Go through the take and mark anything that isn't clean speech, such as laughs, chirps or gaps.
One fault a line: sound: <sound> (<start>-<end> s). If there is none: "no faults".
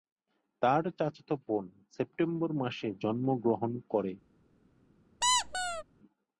sound: squeak (5.2-5.8 s)